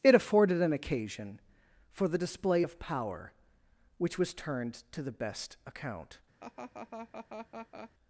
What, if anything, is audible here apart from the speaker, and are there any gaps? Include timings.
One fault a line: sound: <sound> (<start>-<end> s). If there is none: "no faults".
sound: laugh (6.4-7.9 s)